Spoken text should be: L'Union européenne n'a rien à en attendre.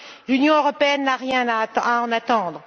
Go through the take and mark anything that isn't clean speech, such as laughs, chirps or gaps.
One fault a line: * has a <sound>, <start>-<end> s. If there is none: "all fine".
all fine